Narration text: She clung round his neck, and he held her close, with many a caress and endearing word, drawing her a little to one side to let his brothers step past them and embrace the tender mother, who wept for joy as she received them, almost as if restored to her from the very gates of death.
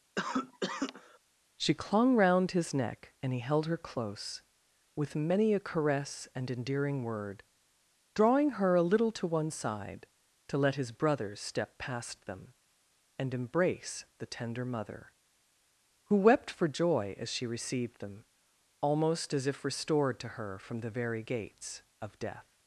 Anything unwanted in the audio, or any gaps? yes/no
yes